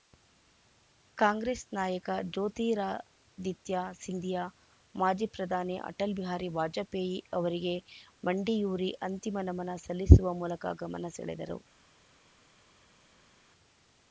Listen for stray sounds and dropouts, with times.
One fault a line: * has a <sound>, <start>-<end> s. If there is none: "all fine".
all fine